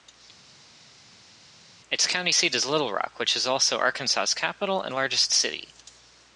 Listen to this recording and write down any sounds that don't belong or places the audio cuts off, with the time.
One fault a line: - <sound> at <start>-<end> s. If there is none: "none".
none